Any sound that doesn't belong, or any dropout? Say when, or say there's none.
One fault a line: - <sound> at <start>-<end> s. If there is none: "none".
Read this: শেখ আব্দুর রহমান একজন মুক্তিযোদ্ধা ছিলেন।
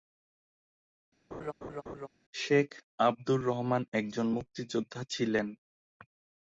- laugh at 1.3-2.1 s